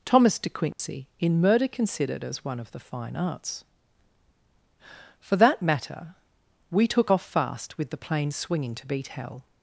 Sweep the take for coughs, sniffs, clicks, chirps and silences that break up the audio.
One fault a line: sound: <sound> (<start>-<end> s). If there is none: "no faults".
sound: dropout (0.7-0.8 s)